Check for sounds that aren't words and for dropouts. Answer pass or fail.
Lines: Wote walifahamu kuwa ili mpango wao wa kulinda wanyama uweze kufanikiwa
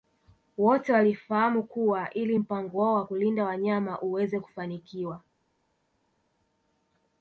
pass